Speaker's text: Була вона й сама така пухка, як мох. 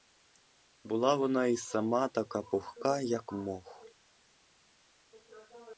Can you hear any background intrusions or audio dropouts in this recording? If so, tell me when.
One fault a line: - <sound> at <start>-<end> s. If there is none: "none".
none